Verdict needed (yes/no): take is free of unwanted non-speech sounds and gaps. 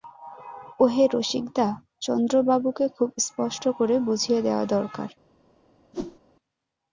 no